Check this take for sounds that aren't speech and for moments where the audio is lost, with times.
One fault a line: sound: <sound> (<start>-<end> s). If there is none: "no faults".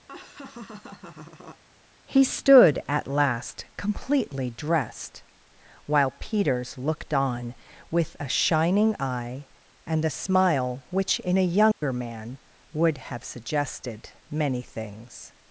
sound: laugh (0.1-1.6 s)
sound: dropout (11.7-11.8 s)